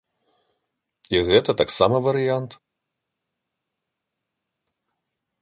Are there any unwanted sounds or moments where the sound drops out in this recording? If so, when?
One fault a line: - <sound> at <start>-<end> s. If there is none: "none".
none